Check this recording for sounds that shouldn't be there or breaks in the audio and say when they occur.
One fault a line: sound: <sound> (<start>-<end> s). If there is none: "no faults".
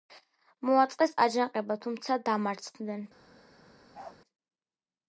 sound: bark (3.9-4.2 s)